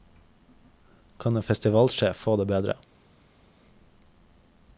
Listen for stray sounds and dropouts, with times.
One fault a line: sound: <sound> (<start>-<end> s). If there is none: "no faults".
no faults